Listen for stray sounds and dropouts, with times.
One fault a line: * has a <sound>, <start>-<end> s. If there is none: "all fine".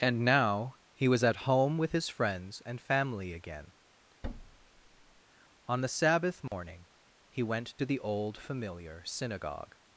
* has a thud, 4.2-5.2 s
* has a dropout, 6.5-6.5 s